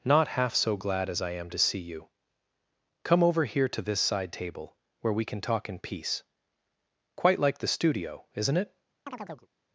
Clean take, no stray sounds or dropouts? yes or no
no